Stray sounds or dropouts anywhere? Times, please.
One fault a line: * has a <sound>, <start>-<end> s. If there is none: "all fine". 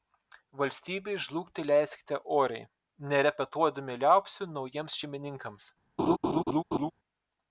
* has a laugh, 6.0-6.9 s